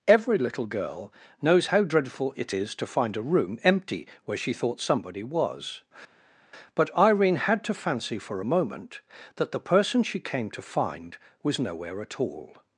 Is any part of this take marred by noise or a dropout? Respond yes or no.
no